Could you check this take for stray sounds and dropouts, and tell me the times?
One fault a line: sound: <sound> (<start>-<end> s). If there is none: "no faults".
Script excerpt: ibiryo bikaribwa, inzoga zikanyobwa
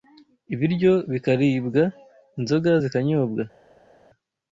no faults